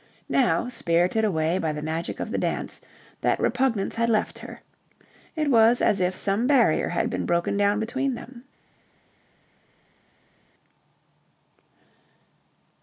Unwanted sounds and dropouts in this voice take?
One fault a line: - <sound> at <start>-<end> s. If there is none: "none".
none